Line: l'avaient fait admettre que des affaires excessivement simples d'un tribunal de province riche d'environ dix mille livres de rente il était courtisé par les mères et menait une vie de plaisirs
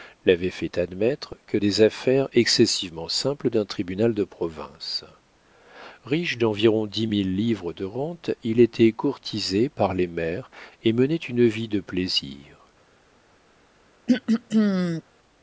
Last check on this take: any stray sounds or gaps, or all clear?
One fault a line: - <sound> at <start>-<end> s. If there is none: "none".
- throat clearing at 14.1-15.0 s